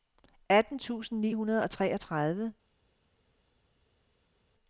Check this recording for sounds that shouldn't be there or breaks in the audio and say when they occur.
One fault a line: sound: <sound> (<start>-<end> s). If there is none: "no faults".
no faults